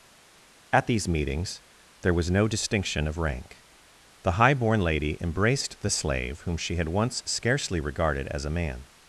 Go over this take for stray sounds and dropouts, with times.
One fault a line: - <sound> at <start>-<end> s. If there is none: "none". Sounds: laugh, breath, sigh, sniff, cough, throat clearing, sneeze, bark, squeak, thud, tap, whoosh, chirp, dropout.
none